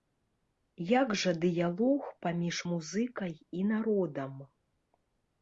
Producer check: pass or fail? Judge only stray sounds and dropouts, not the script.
pass